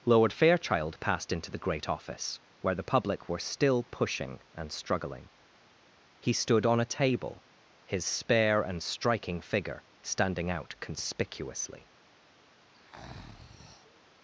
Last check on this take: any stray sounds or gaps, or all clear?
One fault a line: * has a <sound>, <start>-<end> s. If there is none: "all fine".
* has a breath, 12.7-14.0 s